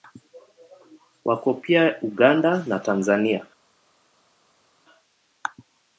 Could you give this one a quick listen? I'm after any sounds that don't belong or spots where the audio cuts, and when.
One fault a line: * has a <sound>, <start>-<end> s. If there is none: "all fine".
all fine